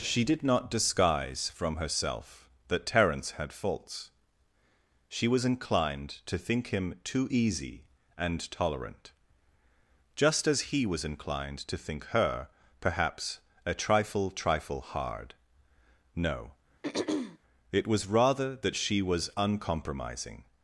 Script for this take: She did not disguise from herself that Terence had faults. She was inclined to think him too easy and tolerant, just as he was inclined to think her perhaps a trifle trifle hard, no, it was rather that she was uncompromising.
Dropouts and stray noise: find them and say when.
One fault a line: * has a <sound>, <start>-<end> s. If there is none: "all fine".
* has a throat clearing, 16.8-17.4 s